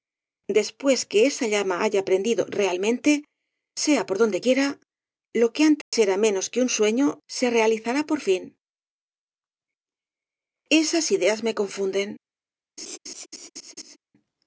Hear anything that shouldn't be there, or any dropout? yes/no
yes